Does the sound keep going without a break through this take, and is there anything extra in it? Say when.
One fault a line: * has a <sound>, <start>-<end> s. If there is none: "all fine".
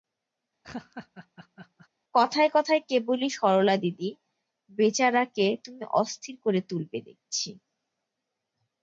* has a laugh, 0.6-1.9 s